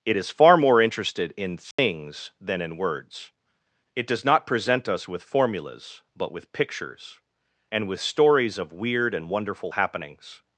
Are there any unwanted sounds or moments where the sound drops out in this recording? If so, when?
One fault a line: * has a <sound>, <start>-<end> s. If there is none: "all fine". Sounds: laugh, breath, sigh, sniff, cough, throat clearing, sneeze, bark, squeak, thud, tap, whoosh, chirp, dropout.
* has a dropout, 1.7-1.8 s